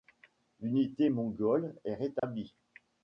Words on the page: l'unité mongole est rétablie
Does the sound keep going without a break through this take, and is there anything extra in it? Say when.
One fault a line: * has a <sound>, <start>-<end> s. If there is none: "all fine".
* has a dropout, 2.2-2.2 s